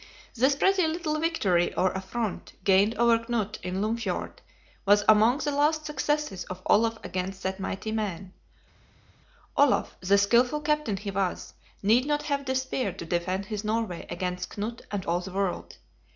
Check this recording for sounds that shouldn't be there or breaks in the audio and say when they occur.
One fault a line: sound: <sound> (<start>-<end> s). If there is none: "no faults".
no faults